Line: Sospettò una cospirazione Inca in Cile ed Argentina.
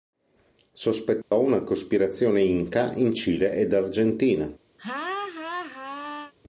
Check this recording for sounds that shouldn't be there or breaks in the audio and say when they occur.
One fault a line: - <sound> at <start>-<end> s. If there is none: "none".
- dropout at 1.2-1.3 s
- laugh at 4.8-6.3 s